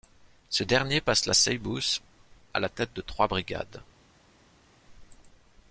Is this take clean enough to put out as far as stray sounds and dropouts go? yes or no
yes